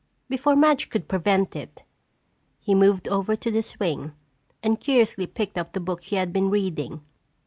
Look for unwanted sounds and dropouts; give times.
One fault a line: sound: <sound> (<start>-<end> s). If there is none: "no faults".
no faults